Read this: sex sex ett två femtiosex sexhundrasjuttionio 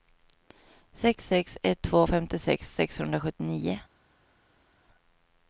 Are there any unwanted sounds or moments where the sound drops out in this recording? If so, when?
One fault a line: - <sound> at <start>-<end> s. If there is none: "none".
none